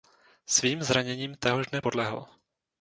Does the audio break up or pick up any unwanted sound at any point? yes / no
no